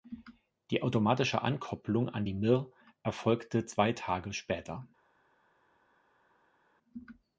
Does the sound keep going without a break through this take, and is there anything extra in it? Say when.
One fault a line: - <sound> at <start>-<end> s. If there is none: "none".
none